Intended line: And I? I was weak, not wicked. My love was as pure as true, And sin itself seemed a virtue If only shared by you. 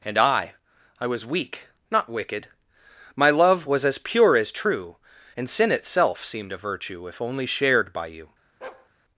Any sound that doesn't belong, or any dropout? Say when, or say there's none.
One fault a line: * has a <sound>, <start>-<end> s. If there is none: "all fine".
* has a bark, 8.6-8.9 s